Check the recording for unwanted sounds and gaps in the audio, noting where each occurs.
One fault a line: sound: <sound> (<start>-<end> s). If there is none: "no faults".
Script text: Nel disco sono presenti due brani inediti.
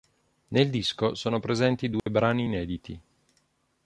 sound: dropout (2.0-2.1 s)